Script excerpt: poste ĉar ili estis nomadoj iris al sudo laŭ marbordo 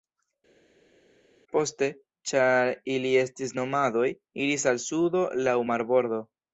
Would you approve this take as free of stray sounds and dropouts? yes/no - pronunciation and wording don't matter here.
yes